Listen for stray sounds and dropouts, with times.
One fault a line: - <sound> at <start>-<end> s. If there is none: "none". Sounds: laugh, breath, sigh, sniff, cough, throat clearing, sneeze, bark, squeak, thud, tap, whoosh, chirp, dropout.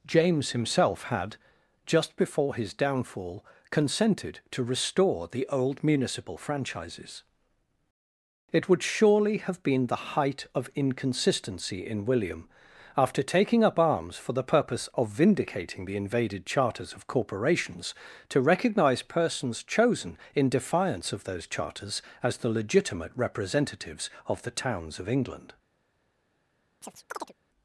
- chirp at 26.8-27.3 s